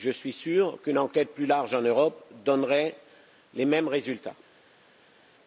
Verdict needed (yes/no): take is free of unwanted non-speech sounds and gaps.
yes